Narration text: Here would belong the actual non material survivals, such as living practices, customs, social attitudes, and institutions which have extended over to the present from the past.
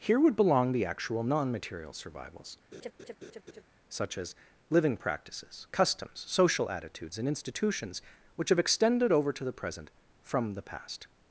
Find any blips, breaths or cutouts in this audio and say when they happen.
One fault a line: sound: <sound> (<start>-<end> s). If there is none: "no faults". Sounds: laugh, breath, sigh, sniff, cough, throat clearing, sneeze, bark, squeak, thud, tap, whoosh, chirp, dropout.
sound: laugh (2.7-3.6 s)